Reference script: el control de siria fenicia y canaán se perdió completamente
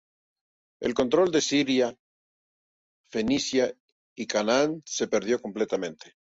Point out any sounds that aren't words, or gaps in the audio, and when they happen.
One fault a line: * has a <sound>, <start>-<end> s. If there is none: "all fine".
all fine